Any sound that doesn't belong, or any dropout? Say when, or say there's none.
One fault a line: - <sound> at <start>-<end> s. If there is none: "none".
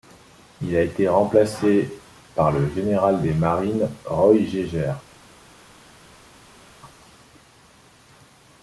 none